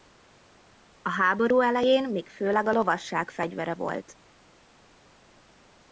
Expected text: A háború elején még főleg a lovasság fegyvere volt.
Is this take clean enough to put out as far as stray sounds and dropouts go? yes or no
yes